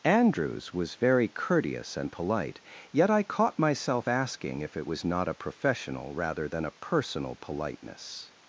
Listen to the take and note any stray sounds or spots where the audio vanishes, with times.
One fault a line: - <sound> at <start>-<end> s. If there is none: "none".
none